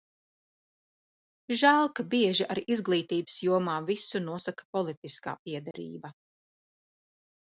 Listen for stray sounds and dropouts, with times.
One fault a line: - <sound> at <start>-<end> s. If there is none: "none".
- dropout at 5.7-5.7 s